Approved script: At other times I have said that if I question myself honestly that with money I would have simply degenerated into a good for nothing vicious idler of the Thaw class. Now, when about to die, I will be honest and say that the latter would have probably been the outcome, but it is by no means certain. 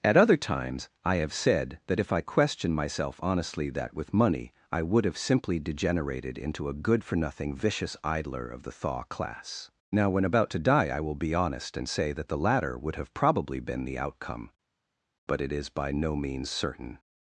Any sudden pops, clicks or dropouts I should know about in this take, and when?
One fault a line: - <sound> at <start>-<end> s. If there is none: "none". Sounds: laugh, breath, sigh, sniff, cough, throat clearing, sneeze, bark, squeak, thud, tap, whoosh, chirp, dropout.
none